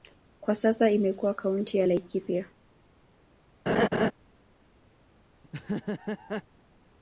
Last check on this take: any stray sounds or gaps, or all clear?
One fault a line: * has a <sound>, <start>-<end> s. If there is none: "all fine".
* has a laugh, 3.7-4.1 s
* has a laugh, 5.4-6.4 s